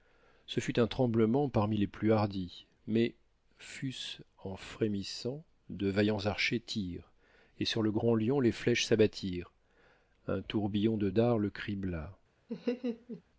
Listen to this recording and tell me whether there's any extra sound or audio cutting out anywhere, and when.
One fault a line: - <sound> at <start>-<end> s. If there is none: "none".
- laugh at 12.5-13.2 s